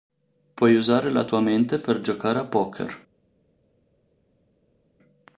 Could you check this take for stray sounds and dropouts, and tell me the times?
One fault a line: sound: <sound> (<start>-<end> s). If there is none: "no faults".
no faults